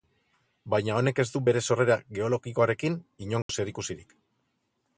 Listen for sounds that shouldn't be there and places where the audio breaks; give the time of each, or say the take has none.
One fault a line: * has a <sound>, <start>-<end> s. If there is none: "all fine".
* has a dropout, 3.4-3.5 s